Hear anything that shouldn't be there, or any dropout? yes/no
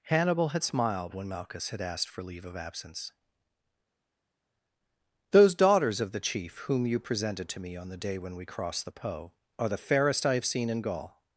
no